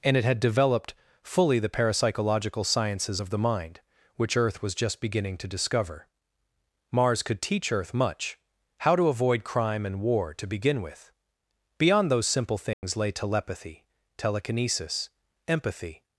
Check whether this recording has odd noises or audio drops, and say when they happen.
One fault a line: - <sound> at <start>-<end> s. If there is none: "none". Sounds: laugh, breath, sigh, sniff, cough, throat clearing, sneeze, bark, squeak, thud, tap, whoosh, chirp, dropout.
- dropout at 12.7-12.8 s